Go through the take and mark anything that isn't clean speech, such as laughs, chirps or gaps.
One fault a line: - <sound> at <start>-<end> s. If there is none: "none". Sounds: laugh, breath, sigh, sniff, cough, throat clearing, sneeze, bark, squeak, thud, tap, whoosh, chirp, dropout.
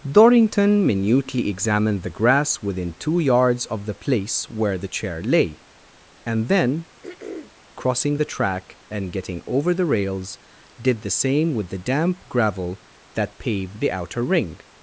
- throat clearing at 7.0-7.5 s